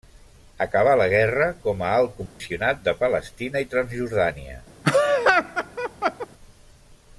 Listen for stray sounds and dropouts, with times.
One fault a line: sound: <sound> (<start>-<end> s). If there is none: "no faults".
sound: dropout (2.3-2.4 s)
sound: laugh (4.8-6.3 s)